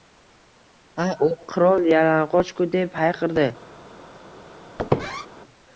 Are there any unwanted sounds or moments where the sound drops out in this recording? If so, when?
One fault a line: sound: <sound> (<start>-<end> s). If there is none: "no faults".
sound: squeak (4.8-5.3 s)